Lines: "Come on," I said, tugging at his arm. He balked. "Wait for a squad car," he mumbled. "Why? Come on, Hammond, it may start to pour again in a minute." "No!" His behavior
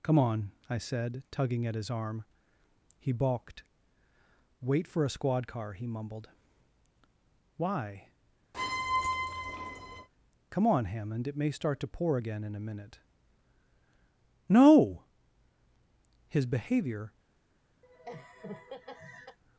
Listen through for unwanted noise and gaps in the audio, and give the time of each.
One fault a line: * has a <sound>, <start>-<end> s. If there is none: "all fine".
* has a squeak, 8.5-10.1 s
* has a laugh, 17.8-19.4 s